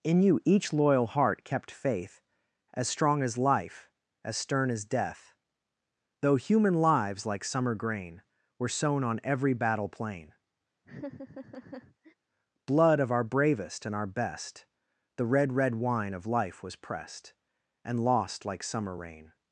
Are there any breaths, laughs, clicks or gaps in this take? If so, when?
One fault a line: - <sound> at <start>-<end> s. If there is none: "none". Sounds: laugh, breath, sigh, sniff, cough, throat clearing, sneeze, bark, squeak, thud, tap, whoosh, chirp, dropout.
- laugh at 10.8-12.1 s